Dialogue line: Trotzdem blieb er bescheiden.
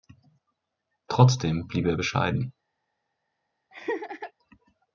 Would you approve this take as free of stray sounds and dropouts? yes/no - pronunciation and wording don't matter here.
no